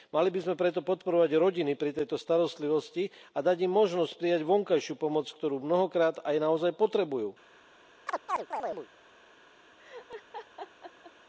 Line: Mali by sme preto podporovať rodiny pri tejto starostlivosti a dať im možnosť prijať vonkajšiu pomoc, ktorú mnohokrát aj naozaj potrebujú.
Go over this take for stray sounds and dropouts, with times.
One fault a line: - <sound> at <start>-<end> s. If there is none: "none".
- chirp at 8.1-8.9 s
- laugh at 9.8-11.1 s